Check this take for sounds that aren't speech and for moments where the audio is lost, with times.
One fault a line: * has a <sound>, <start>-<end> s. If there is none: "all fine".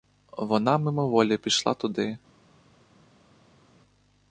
all fine